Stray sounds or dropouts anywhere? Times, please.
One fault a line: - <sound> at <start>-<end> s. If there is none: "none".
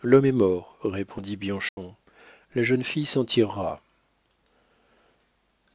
- dropout at 1.7-1.8 s